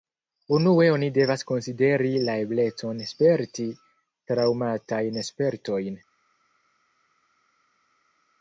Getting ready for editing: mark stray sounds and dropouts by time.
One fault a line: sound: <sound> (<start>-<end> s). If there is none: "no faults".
no faults